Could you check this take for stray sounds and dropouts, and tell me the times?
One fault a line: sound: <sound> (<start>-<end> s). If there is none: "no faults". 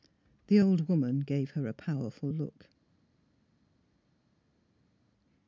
no faults